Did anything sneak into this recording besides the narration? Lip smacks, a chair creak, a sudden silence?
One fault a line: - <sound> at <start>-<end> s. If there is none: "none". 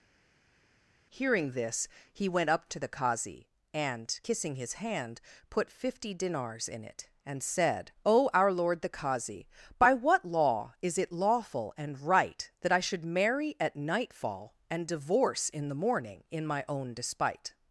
none